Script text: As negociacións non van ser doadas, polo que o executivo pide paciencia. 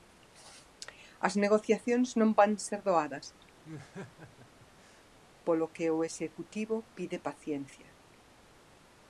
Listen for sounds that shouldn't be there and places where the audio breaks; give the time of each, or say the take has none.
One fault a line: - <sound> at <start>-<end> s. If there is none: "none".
- laugh at 3.6-5.1 s